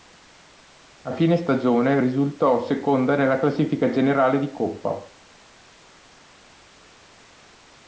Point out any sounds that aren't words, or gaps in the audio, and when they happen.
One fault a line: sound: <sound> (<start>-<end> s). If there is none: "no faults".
no faults